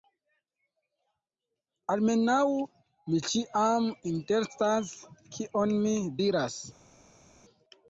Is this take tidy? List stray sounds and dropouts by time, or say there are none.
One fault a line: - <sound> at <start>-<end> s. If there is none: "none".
none